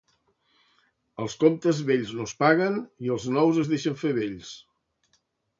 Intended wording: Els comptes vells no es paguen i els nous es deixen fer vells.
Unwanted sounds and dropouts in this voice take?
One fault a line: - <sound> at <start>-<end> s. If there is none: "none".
none